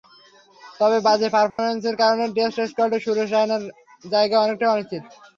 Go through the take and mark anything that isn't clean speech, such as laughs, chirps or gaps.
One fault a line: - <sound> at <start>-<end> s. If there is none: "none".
- dropout at 1.5-1.6 s